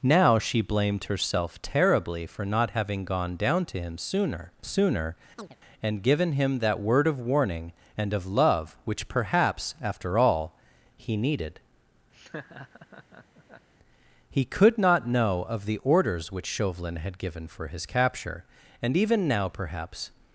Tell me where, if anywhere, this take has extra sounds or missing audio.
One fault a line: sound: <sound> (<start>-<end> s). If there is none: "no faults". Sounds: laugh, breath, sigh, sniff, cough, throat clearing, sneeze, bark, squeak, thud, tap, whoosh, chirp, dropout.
sound: chirp (5.4-5.6 s)
sound: laugh (12.1-13.7 s)